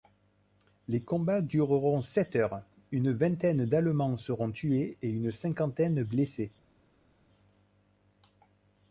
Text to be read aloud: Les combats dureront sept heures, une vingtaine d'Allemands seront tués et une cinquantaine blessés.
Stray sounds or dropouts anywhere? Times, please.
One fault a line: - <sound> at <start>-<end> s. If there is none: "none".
none